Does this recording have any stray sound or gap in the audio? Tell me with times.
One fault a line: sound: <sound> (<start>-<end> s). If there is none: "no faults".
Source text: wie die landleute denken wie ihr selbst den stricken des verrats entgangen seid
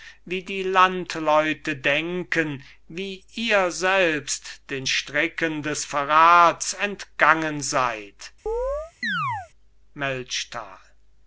sound: chirp (8.5-9.5 s)